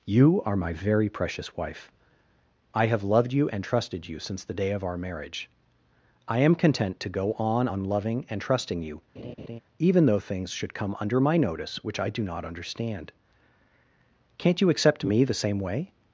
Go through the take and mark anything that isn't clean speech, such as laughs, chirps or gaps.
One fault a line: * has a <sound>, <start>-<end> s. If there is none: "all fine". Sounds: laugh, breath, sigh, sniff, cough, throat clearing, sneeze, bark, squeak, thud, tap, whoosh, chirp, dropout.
* has a laugh, 9.2-9.6 s